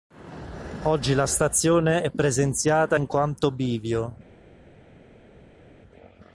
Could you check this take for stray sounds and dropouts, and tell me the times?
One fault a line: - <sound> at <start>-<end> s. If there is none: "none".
none